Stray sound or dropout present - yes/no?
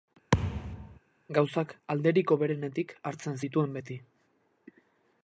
yes